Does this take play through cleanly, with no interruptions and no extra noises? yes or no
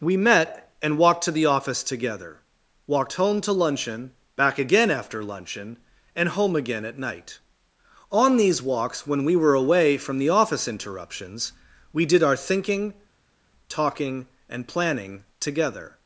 yes